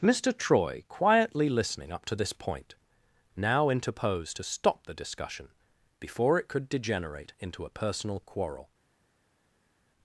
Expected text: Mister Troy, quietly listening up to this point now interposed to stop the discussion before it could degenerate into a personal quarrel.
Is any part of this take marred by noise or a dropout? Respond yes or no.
no